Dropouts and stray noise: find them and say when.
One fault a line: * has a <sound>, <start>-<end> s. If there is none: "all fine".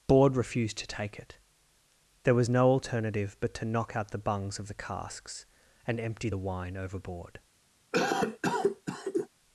* has a cough, 7.9-9.3 s